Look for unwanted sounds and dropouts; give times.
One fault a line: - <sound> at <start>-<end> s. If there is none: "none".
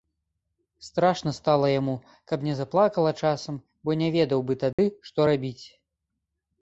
- dropout at 4.7-4.8 s